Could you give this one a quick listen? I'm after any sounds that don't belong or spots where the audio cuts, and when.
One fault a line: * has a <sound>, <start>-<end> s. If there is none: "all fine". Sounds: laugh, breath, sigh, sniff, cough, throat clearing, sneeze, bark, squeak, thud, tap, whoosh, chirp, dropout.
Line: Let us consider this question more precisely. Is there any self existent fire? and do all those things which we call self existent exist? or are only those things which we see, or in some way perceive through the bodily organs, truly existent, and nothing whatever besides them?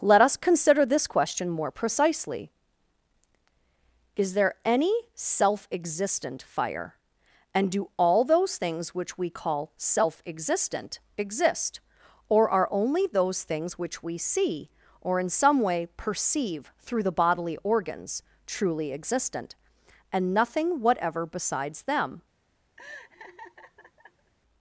* has a laugh, 22.8-24.3 s